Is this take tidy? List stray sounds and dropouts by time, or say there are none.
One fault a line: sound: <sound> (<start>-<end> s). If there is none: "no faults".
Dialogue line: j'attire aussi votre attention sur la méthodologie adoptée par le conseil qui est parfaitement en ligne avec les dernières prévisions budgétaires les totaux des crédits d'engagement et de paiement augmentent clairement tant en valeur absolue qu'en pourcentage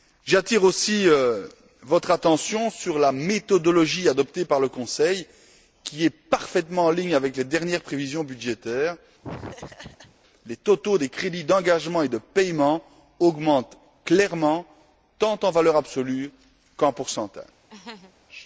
sound: laugh (9.2-10.1 s)
sound: laugh (17.7-18.2 s)